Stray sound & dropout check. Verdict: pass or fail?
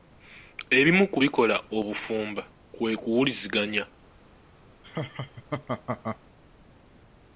fail